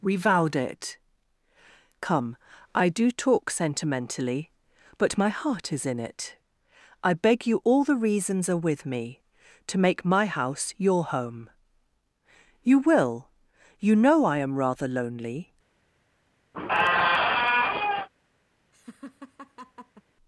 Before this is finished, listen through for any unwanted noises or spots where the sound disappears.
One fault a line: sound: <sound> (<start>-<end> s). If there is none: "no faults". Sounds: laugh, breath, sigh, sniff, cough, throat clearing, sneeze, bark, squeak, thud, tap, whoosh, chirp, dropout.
sound: squeak (16.5-18.1 s)
sound: laugh (18.7-20.0 s)